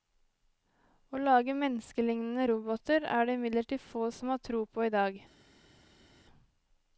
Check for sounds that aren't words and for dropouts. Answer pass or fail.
pass